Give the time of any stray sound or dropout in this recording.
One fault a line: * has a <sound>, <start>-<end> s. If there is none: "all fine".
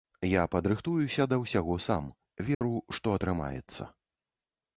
* has a dropout, 2.5-2.6 s